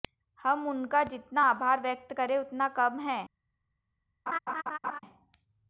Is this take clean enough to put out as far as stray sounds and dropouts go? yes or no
no